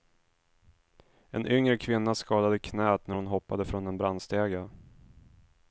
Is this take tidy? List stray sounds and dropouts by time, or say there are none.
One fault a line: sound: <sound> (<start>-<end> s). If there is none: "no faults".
no faults